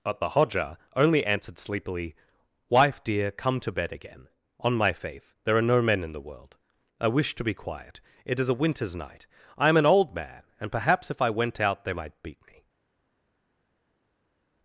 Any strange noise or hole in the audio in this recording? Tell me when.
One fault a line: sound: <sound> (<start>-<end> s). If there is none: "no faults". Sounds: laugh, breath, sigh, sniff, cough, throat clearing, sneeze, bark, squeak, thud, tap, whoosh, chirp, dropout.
no faults